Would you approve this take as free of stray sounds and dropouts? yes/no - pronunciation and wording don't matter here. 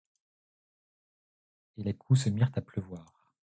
yes